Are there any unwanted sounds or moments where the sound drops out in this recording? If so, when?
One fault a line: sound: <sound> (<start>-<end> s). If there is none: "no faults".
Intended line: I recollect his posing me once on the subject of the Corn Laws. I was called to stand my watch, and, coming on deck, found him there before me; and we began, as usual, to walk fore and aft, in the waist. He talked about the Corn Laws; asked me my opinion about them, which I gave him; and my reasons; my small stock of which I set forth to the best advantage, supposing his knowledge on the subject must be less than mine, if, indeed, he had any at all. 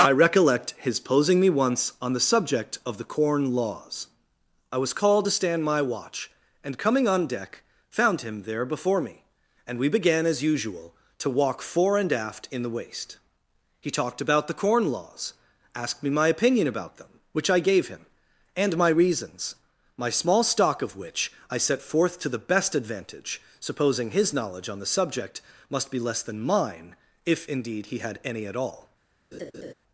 sound: laugh (29.3-29.7 s)